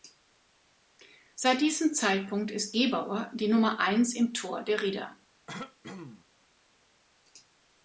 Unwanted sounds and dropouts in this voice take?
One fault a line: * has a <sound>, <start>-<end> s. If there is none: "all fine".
* has a throat clearing, 5.5-6.2 s